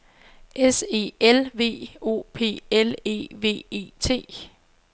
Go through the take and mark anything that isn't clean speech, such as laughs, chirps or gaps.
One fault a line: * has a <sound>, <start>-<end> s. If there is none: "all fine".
all fine